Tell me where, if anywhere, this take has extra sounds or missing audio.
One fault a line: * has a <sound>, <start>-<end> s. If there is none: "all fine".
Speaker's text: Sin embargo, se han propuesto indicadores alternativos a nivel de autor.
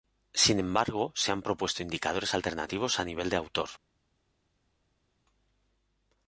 all fine